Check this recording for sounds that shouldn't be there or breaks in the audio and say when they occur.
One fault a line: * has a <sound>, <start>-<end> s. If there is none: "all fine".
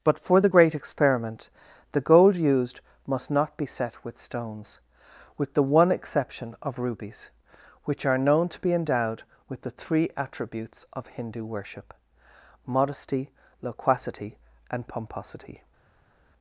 all fine